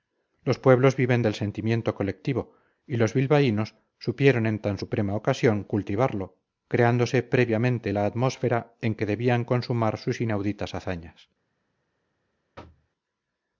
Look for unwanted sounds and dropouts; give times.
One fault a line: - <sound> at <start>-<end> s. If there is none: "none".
- thud at 12.6-12.9 s